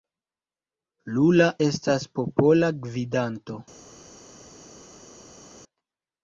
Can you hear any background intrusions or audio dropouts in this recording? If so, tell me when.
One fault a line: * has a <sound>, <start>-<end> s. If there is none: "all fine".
all fine